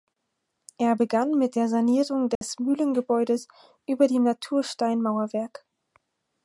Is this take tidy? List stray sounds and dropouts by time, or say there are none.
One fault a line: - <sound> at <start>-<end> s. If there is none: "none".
- dropout at 2.4-2.4 s